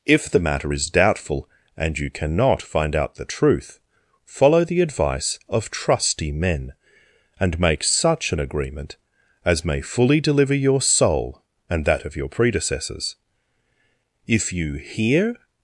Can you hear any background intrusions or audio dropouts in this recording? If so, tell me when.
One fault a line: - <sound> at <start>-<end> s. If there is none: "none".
none